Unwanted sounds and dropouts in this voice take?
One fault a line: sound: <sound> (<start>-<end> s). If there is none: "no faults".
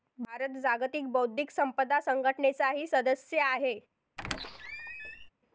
sound: squeak (4.2-5.3 s)